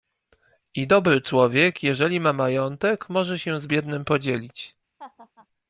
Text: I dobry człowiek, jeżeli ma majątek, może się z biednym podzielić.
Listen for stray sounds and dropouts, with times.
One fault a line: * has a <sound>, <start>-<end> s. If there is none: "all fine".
* has a laugh, 5.0-5.5 s